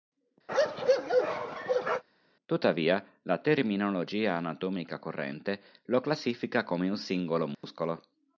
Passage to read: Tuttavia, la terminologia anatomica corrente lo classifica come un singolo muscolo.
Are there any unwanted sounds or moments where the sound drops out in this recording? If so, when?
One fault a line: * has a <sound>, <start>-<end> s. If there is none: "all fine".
* has a bark, 0.5-2.0 s
* has a dropout, 7.5-7.6 s